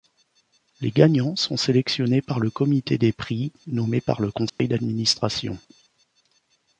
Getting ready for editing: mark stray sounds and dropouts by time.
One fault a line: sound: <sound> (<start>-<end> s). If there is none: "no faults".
sound: dropout (4.5-4.6 s)